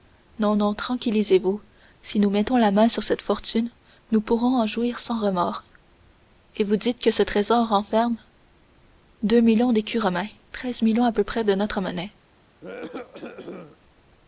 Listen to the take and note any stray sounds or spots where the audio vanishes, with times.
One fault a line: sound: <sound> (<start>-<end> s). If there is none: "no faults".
sound: cough (12.6-13.8 s)